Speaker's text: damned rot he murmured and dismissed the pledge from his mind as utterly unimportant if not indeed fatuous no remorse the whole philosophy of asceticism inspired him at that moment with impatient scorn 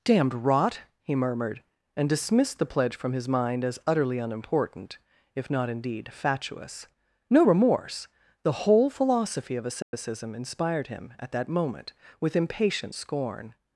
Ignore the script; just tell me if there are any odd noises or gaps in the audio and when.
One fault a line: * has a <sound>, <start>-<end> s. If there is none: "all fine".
* has a dropout, 9.8-9.9 s